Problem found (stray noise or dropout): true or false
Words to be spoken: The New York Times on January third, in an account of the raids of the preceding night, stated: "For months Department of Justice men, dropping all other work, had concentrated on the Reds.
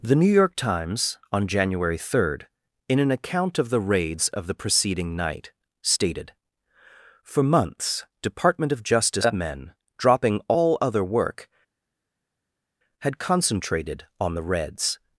false